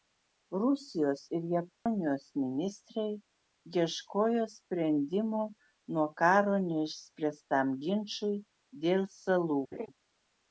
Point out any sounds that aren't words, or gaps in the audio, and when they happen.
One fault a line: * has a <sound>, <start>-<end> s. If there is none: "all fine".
* has a dropout, 1.7-1.9 s
* has a laugh, 9.7-9.9 s